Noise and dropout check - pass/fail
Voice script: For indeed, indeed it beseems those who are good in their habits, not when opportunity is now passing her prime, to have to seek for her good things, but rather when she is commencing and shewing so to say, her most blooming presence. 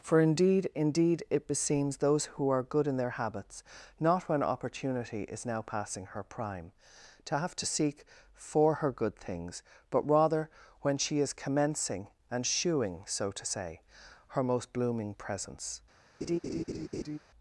fail